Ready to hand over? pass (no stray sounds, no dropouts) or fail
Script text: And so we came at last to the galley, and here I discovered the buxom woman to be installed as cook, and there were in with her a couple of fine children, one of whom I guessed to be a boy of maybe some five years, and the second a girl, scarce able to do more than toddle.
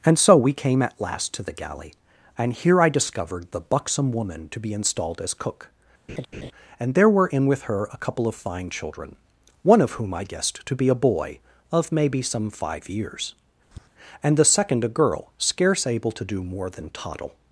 fail